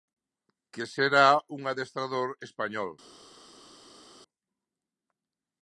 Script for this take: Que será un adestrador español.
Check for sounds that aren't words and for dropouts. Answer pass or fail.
pass